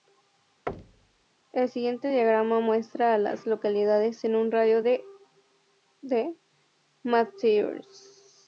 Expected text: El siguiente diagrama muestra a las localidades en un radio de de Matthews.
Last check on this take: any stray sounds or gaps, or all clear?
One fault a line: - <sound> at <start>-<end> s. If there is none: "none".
- thud at 0.7-1.3 s